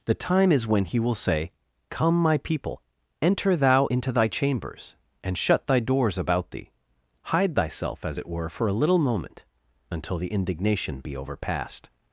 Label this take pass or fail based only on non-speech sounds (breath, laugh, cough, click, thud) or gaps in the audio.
pass